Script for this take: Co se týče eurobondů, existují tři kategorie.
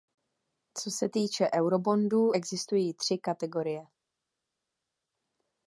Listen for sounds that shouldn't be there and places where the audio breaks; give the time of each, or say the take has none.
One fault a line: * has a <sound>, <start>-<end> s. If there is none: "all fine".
all fine